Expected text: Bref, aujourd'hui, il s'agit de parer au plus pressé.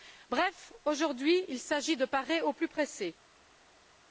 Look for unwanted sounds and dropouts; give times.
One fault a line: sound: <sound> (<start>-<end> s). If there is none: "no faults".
no faults